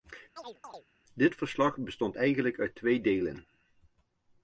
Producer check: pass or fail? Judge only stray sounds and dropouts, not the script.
fail